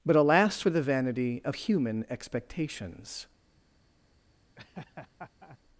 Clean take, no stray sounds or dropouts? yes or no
no